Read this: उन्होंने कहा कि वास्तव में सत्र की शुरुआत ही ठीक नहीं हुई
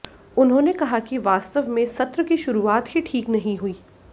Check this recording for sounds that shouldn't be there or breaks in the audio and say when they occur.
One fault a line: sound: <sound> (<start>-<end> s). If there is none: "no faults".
no faults